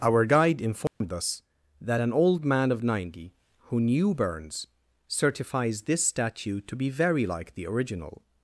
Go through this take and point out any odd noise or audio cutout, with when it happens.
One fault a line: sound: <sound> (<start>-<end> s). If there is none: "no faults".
sound: dropout (0.9-1.0 s)